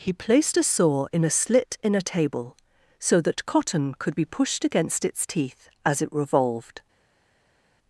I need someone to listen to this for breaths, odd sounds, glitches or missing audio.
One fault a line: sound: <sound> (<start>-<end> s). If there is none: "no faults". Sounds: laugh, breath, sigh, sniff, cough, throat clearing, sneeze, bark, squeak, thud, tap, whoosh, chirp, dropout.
no faults